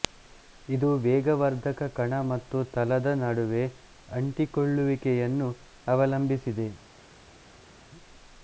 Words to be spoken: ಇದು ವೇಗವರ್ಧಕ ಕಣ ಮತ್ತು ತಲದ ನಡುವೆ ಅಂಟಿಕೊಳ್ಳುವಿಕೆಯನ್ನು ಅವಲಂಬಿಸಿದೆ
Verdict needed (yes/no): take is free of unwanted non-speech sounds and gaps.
yes